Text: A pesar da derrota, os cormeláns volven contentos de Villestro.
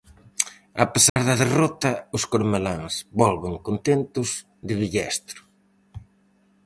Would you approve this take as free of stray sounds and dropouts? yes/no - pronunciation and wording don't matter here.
no